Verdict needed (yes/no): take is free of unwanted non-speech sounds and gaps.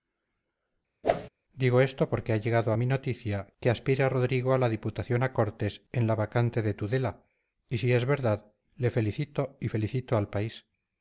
no